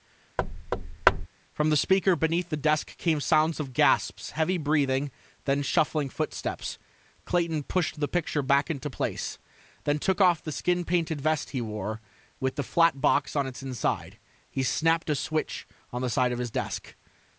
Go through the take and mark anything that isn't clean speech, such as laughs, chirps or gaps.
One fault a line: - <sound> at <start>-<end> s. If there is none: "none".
- thud at 0.4-1.3 s